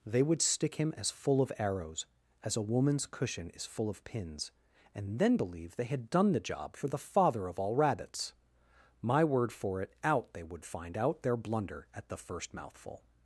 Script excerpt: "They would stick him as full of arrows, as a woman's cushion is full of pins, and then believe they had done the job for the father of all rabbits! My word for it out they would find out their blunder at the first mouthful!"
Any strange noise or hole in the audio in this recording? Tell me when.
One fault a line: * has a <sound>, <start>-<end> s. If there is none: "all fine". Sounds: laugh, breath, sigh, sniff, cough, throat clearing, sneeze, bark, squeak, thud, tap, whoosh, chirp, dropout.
all fine